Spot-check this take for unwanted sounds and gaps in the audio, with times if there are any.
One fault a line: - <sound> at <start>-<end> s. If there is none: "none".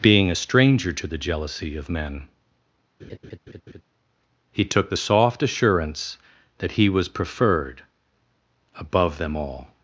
- laugh at 3.0-3.8 s